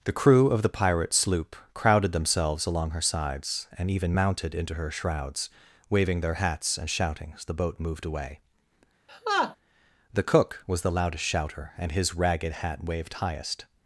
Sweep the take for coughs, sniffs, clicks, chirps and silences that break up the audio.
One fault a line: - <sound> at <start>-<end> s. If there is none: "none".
- laugh at 9.1-9.6 s